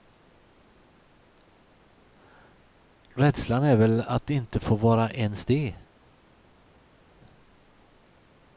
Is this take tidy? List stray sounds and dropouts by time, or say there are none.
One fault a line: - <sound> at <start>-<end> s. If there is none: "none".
none